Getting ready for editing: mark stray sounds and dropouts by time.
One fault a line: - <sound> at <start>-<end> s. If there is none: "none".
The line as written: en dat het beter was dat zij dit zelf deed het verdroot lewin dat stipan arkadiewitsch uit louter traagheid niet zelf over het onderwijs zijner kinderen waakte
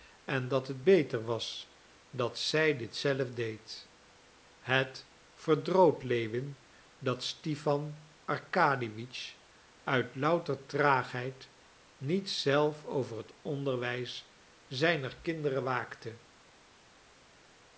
none